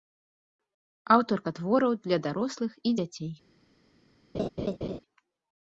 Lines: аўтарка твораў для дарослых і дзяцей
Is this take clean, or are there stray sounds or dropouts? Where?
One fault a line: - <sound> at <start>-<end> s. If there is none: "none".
- laugh at 4.3-5.0 s